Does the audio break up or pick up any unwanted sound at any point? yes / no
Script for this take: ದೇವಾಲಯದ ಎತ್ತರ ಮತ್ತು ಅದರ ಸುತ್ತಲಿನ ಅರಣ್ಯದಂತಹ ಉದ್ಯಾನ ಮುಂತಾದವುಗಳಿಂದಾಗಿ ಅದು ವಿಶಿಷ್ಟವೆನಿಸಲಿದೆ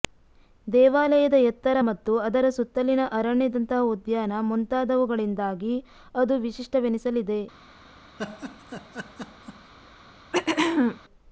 yes